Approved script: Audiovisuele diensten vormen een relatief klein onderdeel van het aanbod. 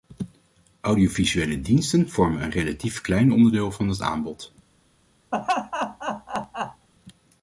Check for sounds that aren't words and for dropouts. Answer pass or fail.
fail